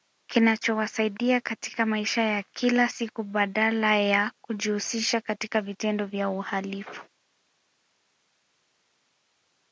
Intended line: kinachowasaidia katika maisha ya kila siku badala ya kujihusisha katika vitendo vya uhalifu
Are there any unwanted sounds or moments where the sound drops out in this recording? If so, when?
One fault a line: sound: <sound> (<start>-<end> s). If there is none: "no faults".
no faults